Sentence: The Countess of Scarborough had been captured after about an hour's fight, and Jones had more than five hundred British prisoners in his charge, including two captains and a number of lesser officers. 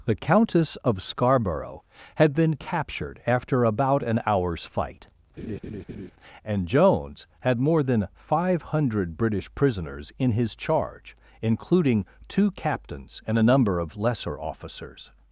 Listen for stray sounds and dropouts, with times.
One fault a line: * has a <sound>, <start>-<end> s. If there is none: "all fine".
* has a laugh, 5.4-6.1 s